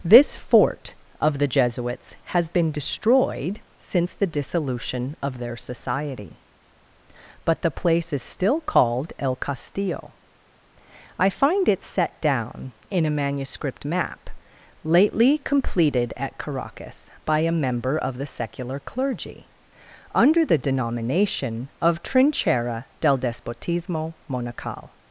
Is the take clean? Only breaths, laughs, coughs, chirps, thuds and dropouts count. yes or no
yes